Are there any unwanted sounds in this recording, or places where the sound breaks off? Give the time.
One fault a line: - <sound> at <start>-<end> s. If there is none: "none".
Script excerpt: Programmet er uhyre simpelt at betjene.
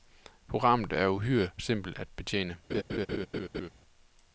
- laugh at 2.7-3.7 s